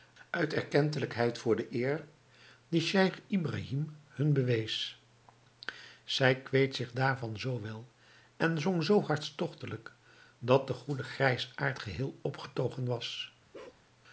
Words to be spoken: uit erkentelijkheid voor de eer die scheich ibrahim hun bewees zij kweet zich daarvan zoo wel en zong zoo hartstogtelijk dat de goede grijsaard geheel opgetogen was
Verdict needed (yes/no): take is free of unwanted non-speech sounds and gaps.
no